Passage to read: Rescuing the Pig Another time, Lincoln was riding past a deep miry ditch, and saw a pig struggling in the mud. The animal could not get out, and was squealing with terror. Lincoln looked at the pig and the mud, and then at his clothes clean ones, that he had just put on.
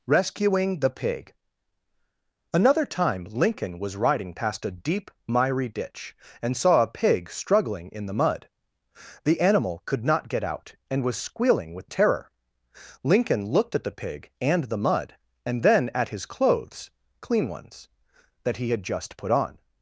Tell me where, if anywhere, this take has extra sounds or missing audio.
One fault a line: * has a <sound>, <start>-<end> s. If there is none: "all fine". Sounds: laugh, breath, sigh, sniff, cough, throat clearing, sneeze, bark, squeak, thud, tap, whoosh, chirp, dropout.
all fine